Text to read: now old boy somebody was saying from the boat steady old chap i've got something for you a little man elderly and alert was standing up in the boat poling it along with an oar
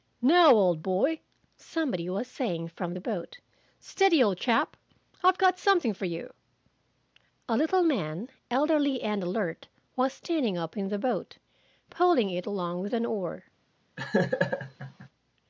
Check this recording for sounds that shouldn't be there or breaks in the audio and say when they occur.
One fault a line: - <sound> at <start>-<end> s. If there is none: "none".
- laugh at 14.0-15.1 s